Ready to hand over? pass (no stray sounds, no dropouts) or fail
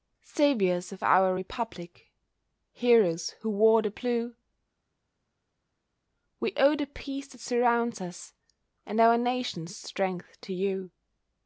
pass